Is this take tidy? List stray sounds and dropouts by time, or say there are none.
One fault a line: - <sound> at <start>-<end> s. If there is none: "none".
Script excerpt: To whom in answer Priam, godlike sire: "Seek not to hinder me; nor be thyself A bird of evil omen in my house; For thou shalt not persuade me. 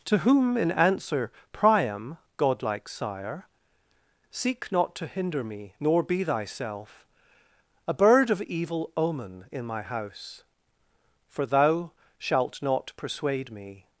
none